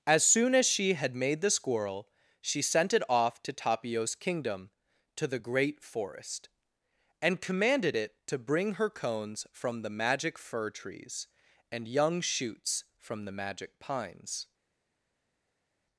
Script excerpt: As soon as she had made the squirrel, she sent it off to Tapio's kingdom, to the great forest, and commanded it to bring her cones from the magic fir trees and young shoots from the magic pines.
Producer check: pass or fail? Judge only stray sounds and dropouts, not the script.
pass